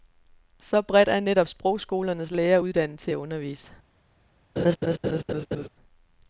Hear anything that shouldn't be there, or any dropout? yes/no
yes